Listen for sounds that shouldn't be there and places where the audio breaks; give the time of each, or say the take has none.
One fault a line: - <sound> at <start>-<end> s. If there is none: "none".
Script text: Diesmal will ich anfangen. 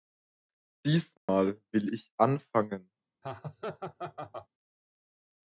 - dropout at 1.2-1.3 s
- laugh at 3.2-4.5 s